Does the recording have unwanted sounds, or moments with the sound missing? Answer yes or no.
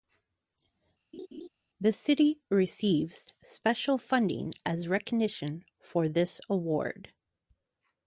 yes